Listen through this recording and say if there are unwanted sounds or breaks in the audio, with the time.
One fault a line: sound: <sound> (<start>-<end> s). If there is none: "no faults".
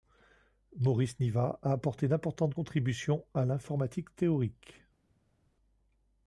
no faults